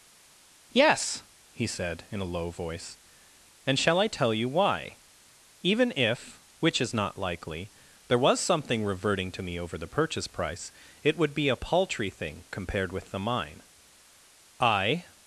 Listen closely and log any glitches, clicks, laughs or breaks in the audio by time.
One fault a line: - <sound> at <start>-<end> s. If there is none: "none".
none